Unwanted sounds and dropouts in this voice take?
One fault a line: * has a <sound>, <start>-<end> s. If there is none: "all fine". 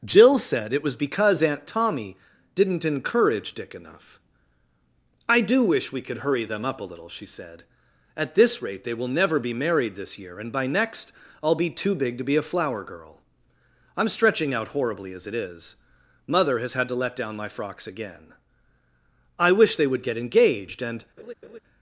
* has a laugh, 21.2-21.6 s